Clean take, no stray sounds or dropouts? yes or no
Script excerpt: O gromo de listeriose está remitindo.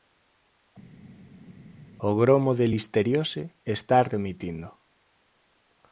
yes